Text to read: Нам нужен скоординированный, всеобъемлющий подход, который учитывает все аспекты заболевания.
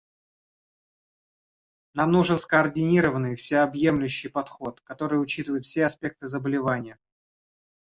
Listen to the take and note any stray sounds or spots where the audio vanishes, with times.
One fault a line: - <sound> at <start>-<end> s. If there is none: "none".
none